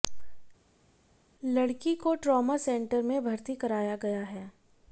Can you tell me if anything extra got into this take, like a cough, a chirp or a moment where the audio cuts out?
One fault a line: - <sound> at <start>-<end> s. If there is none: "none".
none